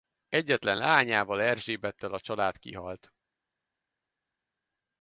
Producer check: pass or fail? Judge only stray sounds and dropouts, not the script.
pass